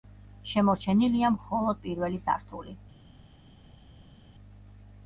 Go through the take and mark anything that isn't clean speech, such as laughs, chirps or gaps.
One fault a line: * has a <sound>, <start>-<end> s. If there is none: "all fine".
all fine